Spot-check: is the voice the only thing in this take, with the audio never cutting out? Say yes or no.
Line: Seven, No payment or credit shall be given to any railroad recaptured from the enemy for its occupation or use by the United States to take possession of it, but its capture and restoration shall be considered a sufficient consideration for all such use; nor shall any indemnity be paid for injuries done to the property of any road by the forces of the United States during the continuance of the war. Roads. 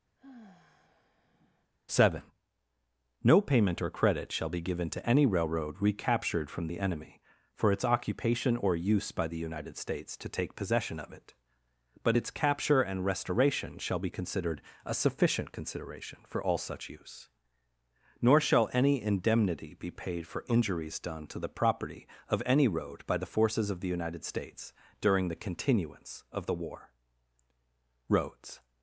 no